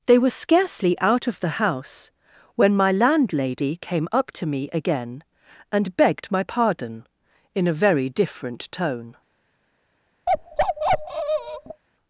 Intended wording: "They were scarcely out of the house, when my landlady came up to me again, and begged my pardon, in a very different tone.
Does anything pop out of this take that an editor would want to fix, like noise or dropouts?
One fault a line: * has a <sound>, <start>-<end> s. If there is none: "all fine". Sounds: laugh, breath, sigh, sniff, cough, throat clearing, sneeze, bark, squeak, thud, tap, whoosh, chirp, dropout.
* has a bark, 10.3-11.8 s